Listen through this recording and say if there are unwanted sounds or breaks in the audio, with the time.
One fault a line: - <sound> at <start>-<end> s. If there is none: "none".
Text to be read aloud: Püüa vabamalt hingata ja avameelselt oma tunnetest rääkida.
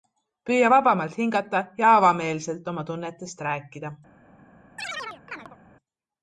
- chirp at 4.8-5.6 s